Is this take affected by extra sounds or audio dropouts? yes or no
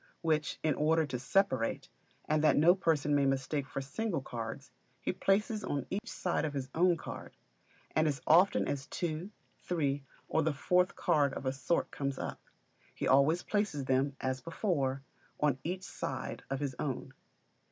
yes